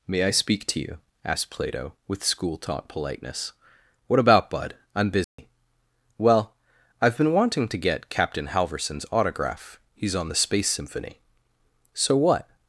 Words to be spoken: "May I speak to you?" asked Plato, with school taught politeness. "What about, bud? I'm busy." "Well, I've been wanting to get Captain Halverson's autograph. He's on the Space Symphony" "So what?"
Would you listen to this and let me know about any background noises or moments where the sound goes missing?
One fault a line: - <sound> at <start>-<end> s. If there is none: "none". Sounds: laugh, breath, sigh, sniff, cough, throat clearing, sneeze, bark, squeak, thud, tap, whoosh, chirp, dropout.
- dropout at 5.2-5.4 s